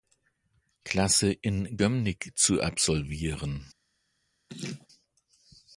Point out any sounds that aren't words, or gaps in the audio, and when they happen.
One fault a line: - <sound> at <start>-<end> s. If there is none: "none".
- laugh at 4.5-4.9 s